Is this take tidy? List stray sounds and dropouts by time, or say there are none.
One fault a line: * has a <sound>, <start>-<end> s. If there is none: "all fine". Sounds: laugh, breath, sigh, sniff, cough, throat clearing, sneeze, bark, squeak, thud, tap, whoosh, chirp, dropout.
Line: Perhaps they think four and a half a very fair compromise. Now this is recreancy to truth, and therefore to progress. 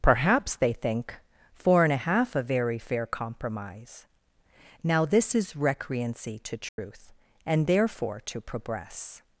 * has a dropout, 6.7-6.8 s